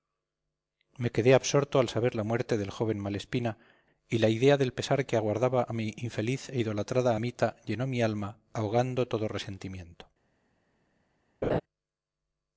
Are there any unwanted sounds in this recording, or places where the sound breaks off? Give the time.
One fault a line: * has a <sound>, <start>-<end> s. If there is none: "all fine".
* has a laugh, 11.4-11.6 s